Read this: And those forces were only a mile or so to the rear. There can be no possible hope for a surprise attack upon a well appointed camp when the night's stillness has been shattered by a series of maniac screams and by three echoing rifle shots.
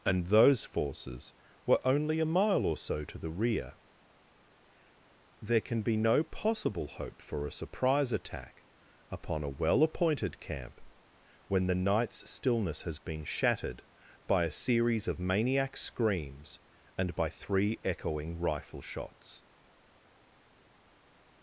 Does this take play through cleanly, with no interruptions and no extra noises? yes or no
yes